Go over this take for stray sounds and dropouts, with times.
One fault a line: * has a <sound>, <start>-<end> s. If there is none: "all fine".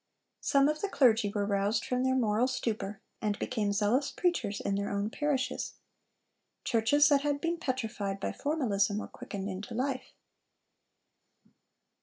all fine